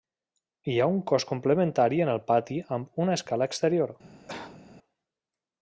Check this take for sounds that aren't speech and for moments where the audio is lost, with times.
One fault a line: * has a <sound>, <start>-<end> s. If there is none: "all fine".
* has a cough, 4.3-4.6 s